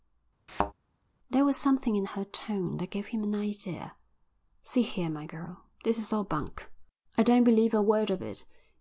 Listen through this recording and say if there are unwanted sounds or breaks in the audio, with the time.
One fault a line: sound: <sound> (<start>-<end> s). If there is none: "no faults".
sound: thud (0.5-0.7 s)